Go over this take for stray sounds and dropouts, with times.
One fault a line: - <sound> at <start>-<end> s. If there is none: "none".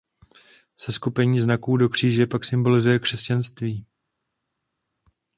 none